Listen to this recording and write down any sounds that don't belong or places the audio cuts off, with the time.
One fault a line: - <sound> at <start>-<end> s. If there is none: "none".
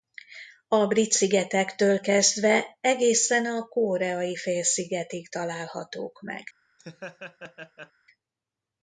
- laugh at 6.8-7.9 s